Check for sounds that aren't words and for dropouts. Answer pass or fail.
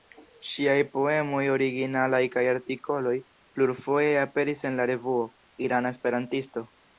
pass